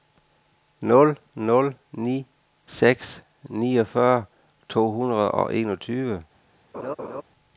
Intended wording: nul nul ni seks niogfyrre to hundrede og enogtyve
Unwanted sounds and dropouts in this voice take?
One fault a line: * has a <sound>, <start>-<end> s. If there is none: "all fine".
* has a laugh, 6.7-7.2 s